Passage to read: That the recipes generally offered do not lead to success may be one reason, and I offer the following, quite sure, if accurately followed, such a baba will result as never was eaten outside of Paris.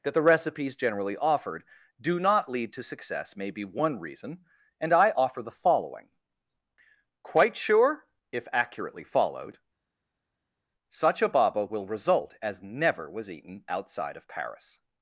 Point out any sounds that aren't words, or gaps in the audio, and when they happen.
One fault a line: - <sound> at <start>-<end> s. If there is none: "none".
none